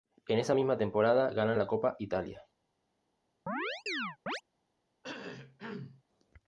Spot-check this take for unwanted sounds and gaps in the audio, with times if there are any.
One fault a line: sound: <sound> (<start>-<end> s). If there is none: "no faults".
sound: chirp (3.5-4.4 s)
sound: cough (5.0-6.0 s)